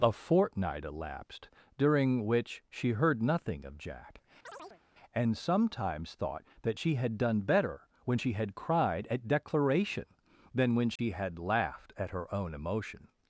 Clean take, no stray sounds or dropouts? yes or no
no